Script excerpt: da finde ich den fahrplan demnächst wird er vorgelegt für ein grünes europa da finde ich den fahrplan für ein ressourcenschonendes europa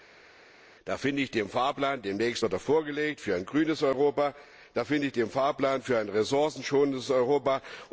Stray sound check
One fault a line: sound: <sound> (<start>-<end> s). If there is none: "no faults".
no faults